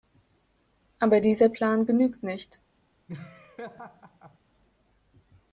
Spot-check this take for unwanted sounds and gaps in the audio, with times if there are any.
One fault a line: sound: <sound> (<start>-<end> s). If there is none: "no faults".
sound: laugh (3.1-4.4 s)